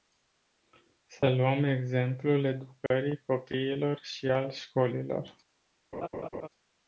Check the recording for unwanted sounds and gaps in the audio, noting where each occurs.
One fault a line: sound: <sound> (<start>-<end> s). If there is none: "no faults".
sound: dropout (2.9-2.9 s)
sound: laugh (5.9-6.5 s)